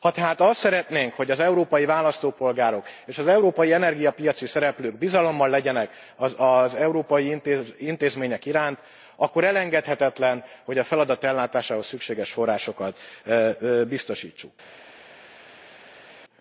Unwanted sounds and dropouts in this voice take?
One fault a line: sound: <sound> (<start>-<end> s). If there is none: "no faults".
no faults